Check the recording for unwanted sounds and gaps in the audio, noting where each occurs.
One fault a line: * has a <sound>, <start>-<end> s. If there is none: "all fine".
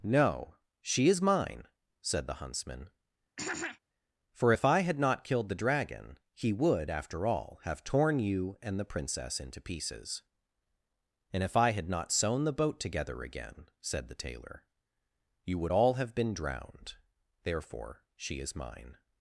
* has a throat clearing, 3.4-3.8 s